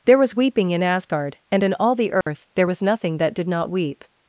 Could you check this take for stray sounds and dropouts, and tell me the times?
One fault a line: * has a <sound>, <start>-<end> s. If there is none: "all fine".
* has a dropout, 2.2-2.3 s